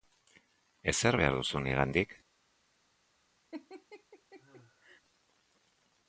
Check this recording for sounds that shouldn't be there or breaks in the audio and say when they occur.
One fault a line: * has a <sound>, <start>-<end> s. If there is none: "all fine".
* has a laugh, 3.5-5.0 s